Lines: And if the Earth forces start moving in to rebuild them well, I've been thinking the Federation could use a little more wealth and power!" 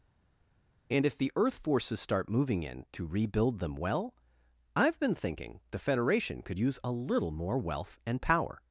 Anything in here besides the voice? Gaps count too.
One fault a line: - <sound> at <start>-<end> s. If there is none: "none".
none